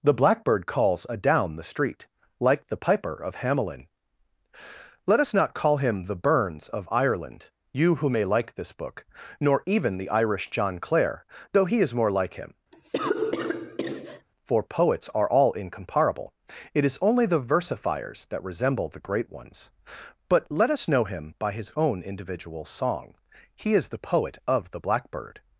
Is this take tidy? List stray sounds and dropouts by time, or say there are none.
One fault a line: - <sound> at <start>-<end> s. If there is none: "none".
- cough at 12.7-14.3 s